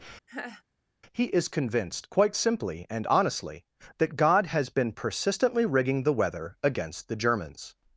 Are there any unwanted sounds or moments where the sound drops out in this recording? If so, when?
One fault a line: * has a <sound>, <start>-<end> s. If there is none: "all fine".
* has a laugh, 0.3-0.6 s